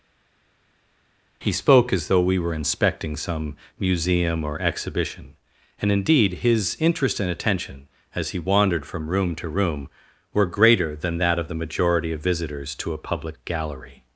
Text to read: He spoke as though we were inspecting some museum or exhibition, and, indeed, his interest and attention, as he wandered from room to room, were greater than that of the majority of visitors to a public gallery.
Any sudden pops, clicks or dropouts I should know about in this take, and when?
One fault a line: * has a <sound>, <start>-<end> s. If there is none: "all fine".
all fine